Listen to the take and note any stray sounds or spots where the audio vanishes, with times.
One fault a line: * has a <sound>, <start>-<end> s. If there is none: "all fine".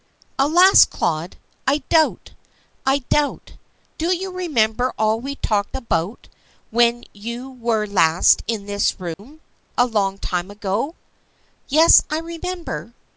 * has a dropout, 9.1-9.2 s